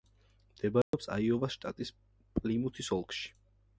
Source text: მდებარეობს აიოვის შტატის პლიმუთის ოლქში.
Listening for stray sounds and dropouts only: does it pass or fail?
fail